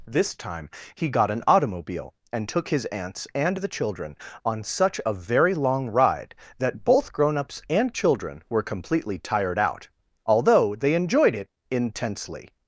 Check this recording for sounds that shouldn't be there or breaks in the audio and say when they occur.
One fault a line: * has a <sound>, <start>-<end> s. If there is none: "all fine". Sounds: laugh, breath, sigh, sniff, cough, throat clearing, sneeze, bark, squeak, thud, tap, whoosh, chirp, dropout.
all fine